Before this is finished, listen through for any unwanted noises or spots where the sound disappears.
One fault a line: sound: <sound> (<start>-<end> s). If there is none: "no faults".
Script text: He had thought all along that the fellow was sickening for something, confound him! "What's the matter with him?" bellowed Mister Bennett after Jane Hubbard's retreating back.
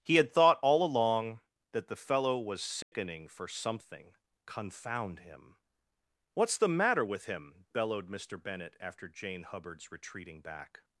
sound: dropout (2.8-2.9 s)